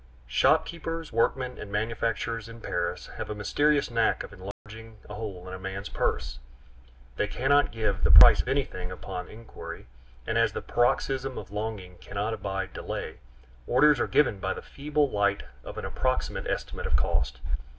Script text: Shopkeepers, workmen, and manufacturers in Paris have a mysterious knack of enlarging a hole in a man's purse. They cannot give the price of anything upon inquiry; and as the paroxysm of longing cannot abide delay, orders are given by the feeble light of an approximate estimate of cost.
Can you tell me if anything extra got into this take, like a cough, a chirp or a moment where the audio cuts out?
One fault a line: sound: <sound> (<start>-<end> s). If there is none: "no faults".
sound: dropout (4.5-4.7 s)